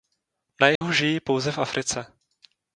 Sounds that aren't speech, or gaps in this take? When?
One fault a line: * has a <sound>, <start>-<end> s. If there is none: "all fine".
* has a dropout, 0.8-0.8 s